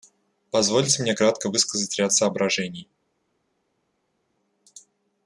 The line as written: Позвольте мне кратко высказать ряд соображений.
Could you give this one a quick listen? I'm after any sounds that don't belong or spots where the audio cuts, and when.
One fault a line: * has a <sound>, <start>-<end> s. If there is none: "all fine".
all fine